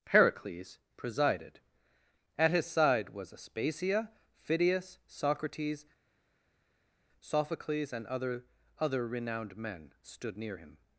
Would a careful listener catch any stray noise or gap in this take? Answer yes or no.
no